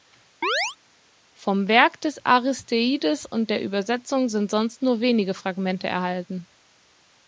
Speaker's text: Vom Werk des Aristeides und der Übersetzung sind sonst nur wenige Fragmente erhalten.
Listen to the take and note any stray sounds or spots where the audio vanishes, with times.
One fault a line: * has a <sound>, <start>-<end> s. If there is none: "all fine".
* has a chirp, 0.4-0.8 s